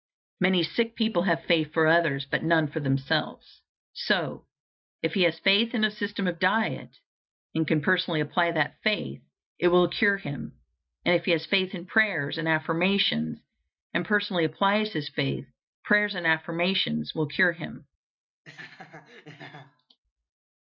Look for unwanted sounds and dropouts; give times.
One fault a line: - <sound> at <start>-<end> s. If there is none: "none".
- laugh at 18.4-20.0 s